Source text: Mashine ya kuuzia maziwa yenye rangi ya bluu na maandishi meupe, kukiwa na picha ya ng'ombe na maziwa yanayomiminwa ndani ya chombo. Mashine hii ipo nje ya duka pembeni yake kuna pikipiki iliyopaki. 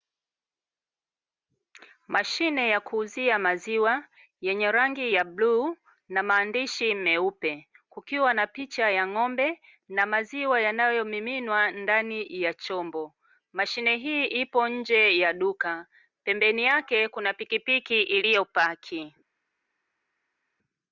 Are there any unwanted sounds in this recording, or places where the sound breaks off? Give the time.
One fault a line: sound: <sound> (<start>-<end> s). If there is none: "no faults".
no faults